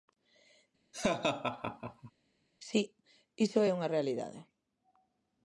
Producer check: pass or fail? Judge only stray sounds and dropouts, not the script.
fail